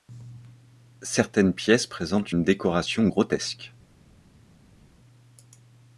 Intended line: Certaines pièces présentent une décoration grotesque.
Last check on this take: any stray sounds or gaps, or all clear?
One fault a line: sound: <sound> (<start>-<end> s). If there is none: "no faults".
no faults